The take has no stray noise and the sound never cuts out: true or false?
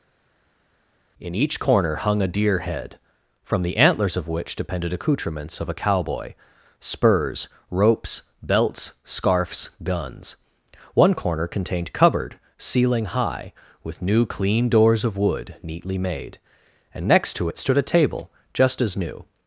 true